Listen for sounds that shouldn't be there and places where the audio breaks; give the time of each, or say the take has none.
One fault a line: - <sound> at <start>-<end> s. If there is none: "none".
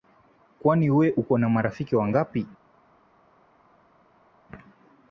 none